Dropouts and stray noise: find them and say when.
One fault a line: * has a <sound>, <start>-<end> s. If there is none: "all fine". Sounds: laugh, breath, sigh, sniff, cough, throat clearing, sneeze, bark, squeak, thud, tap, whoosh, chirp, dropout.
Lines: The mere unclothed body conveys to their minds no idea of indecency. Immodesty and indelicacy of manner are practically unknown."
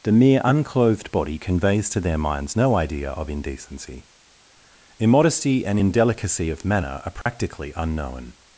* has a dropout, 7.2-7.3 s